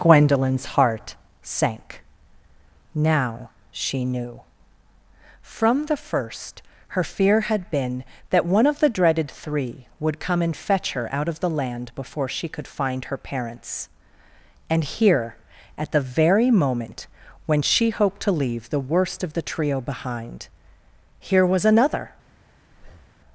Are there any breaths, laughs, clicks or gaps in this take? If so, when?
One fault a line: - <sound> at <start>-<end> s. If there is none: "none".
- breath at 22.7-23.2 s